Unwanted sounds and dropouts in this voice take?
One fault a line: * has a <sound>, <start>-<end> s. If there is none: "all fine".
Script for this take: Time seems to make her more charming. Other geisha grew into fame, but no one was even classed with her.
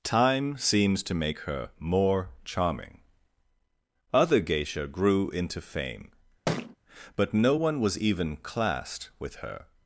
* has a thud, 6.5-6.8 s